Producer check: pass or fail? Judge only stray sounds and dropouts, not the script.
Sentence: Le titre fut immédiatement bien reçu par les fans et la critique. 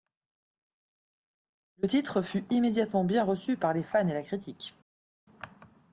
pass